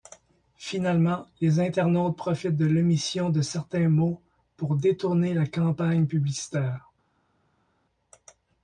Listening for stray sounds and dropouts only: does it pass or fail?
pass